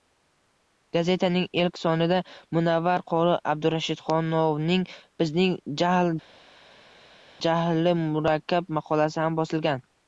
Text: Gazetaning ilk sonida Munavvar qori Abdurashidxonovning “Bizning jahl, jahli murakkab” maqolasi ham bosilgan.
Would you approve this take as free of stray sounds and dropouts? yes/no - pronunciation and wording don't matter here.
yes